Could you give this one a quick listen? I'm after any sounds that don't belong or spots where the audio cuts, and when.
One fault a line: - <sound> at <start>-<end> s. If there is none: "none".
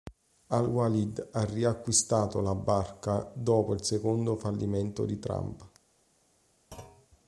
- thud at 6.7-7.1 s